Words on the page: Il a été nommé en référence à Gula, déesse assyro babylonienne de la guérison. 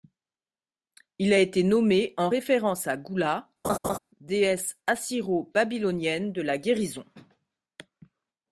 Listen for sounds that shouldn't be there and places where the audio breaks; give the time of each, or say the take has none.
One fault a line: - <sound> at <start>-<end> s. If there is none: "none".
- laugh at 3.6-4.0 s